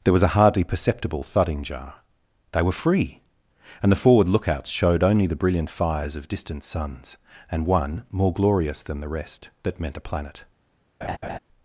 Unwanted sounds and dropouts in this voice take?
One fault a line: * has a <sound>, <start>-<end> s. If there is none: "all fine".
* has a laugh, 11.0-11.4 s